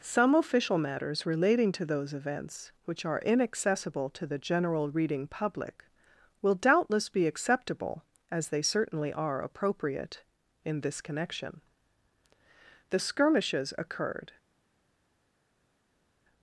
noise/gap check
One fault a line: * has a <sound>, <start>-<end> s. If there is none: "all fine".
all fine